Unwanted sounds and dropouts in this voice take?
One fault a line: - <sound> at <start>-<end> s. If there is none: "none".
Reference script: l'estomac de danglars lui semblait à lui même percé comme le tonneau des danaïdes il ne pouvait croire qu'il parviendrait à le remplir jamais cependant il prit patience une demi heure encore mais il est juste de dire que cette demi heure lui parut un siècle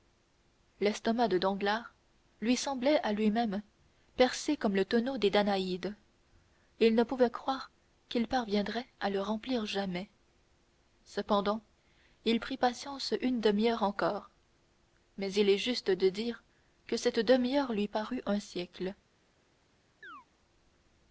- chirp at 20.0-20.3 s